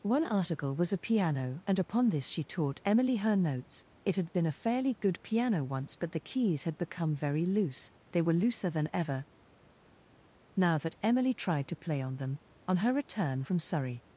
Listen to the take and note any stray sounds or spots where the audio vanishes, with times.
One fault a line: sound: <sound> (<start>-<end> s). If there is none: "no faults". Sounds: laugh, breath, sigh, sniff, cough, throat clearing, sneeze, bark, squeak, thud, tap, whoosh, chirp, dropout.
no faults